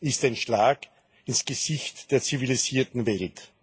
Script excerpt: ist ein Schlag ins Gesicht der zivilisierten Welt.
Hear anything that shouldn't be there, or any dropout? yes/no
no